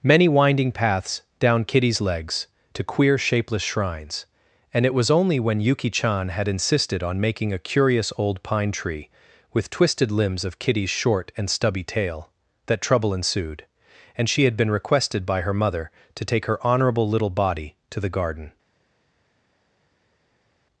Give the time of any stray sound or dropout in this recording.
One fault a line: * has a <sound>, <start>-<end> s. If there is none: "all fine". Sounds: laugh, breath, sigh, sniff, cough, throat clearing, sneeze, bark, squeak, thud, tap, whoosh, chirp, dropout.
all fine